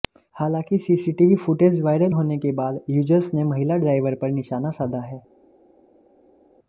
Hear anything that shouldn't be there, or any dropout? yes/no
no